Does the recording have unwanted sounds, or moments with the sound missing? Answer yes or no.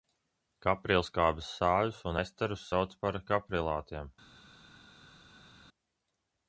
no